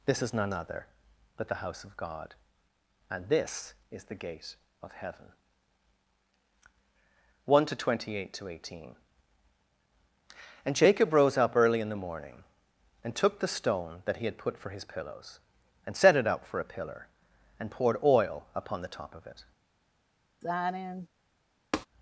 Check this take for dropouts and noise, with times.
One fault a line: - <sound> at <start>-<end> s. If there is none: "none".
- sigh at 20.4-21.1 s
- tap at 21.7-21.9 s